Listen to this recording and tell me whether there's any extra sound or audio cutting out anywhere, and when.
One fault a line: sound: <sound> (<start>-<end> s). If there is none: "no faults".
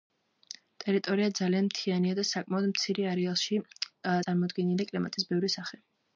no faults